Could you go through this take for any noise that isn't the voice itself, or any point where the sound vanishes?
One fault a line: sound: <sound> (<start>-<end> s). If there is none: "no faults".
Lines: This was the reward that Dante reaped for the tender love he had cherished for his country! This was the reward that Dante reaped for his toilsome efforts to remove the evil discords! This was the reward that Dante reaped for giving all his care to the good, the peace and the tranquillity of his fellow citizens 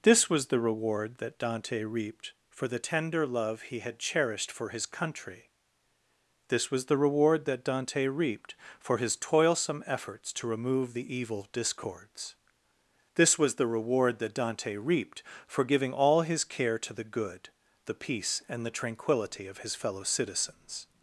no faults